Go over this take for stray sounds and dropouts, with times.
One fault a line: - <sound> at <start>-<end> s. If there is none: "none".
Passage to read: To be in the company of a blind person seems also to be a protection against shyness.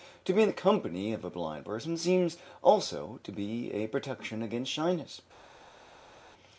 none